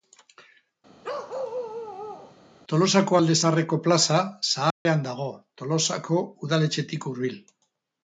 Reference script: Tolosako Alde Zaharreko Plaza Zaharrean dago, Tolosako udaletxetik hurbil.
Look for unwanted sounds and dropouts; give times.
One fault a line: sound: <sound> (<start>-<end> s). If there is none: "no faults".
sound: bark (1.0-2.4 s)
sound: dropout (4.7-4.9 s)